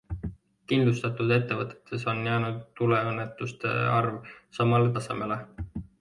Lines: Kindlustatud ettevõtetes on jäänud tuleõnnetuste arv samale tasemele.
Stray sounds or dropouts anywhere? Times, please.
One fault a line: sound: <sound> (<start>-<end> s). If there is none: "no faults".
no faults